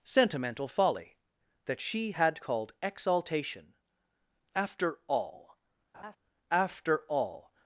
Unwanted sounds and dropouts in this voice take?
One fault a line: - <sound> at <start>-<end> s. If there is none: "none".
- laugh at 5.9-6.2 s